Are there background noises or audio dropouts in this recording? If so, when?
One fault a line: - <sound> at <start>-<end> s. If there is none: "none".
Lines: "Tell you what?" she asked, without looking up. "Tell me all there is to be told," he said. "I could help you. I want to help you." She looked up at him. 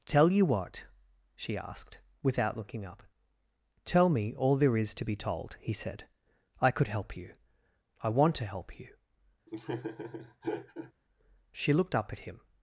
- laugh at 9.5-10.9 s